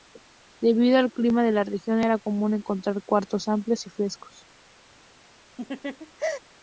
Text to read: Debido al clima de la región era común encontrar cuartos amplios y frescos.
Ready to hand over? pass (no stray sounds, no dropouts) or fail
fail